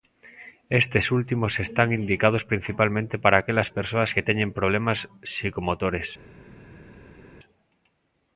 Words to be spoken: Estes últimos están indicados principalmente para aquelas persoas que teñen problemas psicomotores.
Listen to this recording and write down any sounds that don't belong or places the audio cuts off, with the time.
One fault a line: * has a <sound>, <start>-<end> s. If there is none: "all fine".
all fine